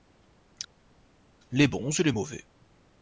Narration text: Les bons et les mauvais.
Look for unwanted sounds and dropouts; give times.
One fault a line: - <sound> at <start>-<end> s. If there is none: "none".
none